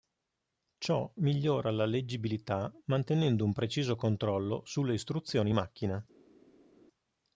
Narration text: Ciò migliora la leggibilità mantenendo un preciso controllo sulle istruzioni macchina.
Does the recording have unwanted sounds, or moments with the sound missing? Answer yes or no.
no